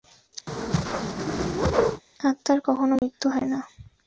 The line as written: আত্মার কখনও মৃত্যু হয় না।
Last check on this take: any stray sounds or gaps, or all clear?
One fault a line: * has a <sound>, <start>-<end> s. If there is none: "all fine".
* has a whoosh, 0.5-2.0 s
* has a dropout, 3.0-3.0 s